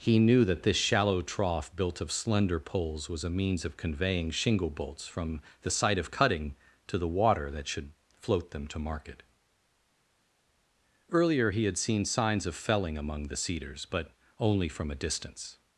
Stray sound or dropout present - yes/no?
no